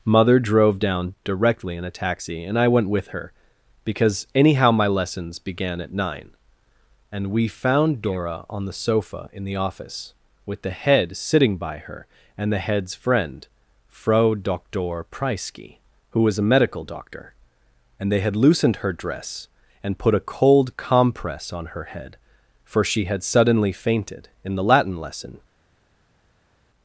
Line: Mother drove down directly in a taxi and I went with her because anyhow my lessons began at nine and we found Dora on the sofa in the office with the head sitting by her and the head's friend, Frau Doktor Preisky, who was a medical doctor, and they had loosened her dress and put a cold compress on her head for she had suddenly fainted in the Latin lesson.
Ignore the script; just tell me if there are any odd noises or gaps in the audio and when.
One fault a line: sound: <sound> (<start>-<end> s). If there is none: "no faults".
no faults